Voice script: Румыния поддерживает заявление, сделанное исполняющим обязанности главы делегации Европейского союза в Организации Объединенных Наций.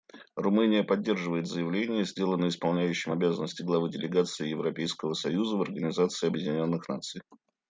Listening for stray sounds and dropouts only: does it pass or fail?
pass